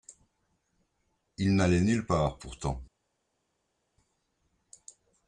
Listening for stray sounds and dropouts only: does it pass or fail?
pass